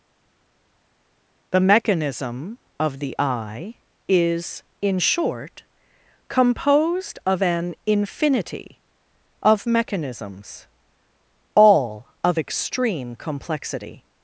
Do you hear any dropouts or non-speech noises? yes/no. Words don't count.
no